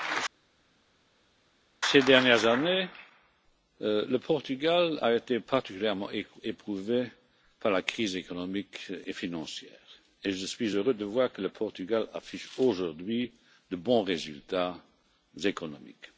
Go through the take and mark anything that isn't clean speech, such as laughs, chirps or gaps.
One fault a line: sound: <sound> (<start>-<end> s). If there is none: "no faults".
no faults